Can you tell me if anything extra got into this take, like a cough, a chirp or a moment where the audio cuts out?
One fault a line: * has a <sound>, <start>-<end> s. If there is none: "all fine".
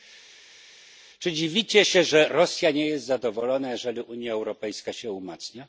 all fine